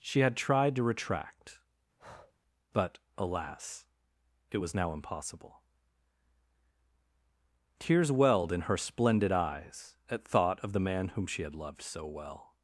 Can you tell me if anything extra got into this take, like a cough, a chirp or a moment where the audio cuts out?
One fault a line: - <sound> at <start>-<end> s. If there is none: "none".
- breath at 2.0-2.3 s